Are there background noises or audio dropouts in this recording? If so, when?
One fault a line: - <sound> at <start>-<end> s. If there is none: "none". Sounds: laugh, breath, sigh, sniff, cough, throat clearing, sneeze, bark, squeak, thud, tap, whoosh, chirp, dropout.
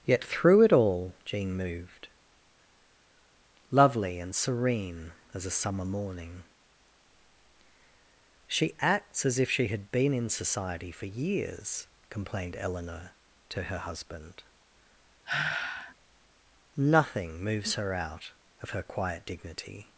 - sigh at 15.3-16.0 s